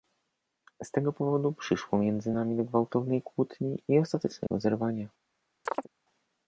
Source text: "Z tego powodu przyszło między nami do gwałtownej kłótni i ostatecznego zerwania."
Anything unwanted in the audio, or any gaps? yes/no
yes